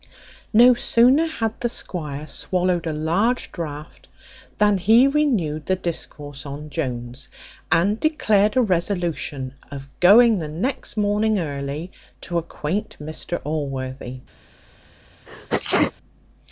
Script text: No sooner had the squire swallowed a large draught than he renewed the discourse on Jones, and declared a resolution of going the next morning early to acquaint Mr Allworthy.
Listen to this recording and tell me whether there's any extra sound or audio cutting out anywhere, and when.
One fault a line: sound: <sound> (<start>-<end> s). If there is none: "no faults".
sound: sneeze (15.3-15.9 s)